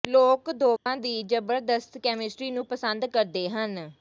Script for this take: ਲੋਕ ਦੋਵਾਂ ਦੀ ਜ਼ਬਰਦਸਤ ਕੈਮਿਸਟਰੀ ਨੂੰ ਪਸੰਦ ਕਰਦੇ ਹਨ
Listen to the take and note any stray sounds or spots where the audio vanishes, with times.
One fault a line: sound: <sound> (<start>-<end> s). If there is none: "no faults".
sound: dropout (0.8-0.9 s)